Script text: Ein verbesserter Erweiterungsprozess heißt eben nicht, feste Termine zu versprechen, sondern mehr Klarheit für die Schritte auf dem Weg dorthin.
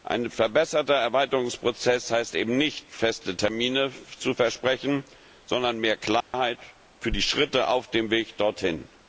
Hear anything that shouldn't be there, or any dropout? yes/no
yes